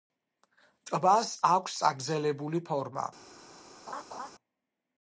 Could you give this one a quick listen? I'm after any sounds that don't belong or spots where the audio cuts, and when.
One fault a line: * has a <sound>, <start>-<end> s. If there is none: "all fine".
* has a laugh, 3.9-4.3 s